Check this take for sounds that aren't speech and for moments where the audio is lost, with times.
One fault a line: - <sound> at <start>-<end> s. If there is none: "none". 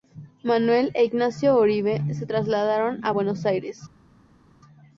none